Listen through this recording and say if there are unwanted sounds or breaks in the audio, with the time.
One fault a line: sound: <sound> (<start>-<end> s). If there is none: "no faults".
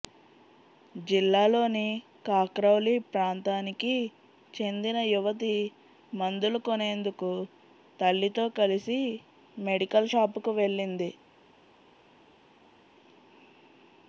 no faults